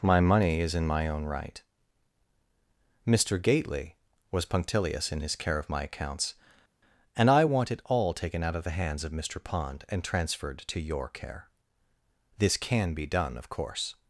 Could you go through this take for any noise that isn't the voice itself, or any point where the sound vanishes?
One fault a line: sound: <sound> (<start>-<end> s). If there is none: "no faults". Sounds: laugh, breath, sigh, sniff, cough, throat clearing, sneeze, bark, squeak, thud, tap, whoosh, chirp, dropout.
no faults